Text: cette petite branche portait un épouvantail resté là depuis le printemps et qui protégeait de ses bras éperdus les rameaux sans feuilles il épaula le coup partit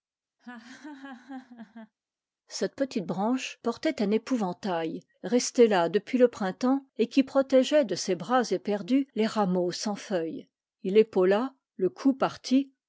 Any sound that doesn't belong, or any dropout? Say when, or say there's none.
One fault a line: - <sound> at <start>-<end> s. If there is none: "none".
- laugh at 0.4-1.9 s